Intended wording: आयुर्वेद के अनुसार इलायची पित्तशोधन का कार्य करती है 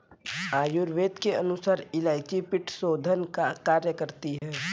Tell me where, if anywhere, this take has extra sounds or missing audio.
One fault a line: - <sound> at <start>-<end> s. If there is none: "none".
- dropout at 4.4-4.4 s